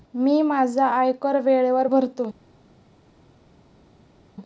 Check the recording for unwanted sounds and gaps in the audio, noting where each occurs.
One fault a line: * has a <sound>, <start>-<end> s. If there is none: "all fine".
all fine